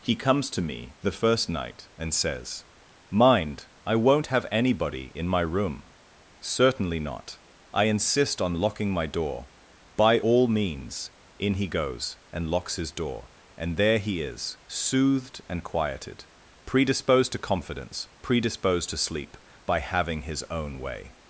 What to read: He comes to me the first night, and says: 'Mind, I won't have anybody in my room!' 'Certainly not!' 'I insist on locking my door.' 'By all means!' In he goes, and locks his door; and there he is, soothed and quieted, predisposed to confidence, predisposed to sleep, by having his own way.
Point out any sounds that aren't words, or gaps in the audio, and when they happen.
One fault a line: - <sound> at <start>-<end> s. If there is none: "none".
none